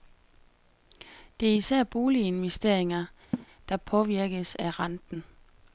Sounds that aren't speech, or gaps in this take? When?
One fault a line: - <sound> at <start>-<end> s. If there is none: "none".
- laugh at 3.3-3.5 s